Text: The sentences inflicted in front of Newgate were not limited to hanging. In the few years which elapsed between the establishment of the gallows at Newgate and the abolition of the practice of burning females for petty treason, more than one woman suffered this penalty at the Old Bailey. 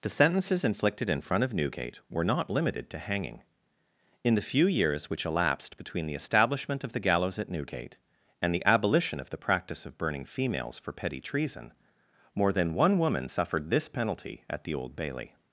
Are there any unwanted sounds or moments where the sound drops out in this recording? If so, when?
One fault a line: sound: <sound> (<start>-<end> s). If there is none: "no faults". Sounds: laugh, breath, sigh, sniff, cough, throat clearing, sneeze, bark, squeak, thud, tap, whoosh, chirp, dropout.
no faults